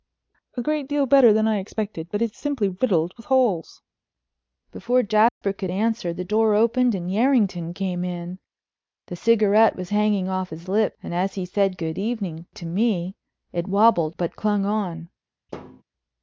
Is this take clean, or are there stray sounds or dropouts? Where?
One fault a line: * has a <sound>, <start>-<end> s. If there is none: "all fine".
* has a dropout, 5.3-5.4 s
* has a thud, 15.5-15.8 s